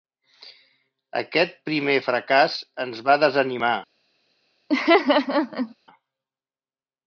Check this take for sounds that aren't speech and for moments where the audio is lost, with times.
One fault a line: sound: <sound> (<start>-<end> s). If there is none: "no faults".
sound: laugh (4.7-5.7 s)